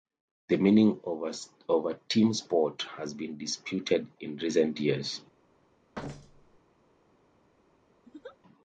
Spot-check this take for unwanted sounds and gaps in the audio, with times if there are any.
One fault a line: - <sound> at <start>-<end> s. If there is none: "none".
- thud at 5.9-6.6 s
- laugh at 8.0-8.4 s